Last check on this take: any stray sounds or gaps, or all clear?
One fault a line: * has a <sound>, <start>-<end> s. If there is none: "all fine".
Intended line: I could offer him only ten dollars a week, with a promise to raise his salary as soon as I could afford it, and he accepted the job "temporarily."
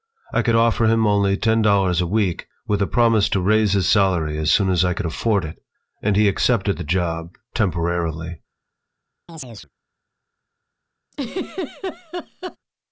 * has a chirp, 9.3-9.7 s
* has a laugh, 11.1-12.6 s